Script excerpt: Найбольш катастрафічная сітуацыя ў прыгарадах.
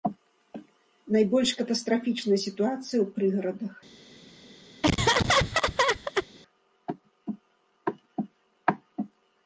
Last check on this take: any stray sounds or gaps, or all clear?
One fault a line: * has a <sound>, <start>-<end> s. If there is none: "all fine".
* has a laugh, 4.8-6.3 s